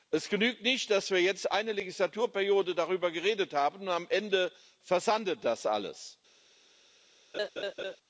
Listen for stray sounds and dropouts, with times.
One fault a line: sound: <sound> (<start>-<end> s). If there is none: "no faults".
sound: laugh (7.3-8.0 s)